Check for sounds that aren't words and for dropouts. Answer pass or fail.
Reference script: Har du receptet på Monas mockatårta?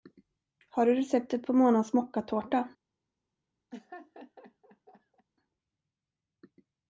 fail